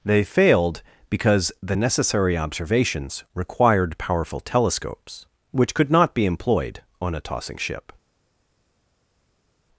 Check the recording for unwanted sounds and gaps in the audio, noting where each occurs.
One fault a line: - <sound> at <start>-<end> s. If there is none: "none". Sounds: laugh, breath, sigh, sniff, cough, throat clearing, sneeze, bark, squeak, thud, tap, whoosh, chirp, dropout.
none